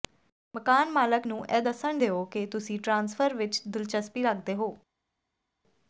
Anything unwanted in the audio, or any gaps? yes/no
no